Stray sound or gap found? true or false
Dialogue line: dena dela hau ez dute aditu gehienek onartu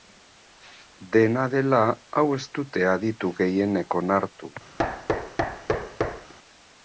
true